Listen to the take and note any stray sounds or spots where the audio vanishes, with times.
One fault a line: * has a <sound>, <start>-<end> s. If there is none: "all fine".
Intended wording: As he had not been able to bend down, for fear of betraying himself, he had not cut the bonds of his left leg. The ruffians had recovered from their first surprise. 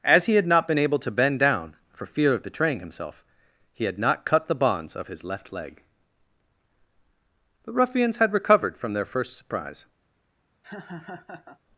* has a laugh, 10.6-11.6 s